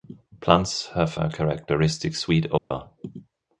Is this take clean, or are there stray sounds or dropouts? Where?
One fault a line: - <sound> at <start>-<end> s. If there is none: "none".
- dropout at 2.6-2.7 s